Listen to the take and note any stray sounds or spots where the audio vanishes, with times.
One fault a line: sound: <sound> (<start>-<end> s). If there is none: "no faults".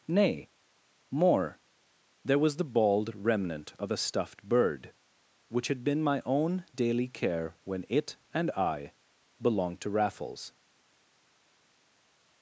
no faults